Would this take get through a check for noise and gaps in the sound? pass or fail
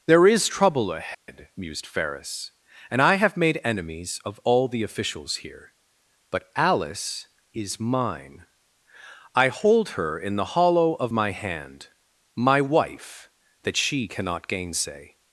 fail